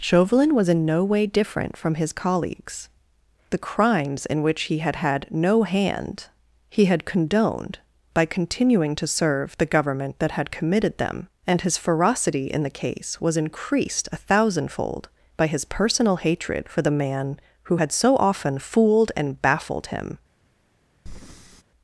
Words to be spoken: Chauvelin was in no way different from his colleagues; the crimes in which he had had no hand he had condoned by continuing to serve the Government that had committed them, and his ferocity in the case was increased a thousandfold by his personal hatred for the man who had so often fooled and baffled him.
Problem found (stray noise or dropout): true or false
true